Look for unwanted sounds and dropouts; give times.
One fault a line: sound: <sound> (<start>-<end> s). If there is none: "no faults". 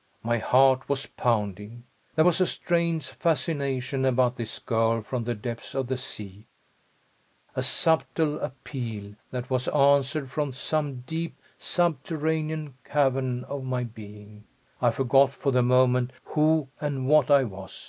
no faults